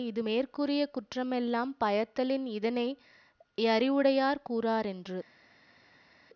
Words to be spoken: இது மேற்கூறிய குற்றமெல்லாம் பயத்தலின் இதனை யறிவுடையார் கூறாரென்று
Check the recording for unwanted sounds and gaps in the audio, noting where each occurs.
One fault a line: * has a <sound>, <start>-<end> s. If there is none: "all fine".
all fine